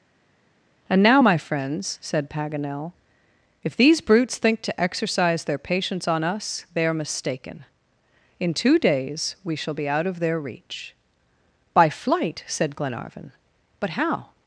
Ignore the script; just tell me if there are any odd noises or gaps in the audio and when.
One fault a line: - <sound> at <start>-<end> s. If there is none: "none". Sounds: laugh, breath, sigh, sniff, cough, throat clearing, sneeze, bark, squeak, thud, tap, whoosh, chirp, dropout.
none